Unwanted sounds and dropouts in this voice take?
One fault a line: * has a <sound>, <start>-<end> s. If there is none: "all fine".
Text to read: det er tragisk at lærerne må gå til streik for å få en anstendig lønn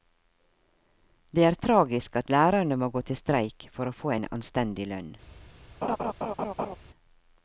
* has a laugh, 5.8-6.8 s